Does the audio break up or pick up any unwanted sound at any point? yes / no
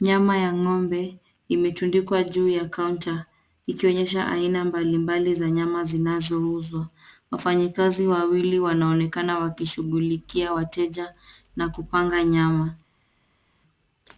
no